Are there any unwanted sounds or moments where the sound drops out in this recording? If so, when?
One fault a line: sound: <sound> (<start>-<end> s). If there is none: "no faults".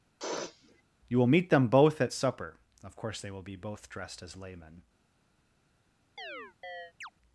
sound: sniff (0.2-0.8 s)
sound: chirp (6.2-7.1 s)